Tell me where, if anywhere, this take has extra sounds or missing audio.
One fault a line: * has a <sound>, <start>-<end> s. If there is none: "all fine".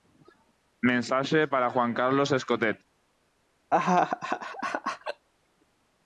* has a laugh, 3.7-5.3 s